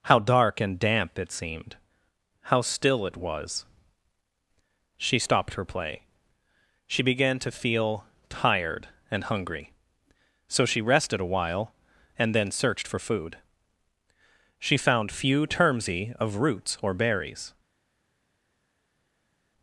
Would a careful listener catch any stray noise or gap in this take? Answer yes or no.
no